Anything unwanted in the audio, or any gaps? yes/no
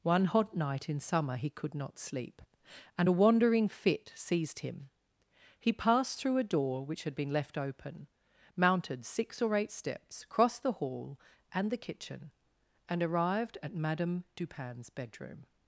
no